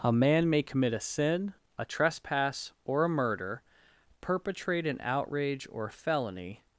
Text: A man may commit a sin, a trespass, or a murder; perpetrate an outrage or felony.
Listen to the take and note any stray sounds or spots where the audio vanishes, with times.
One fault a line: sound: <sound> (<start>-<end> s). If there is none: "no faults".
no faults